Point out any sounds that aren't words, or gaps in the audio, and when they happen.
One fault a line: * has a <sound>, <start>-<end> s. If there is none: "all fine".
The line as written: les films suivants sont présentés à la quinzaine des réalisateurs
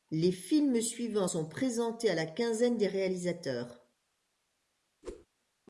* has a whoosh, 5.0-5.3 s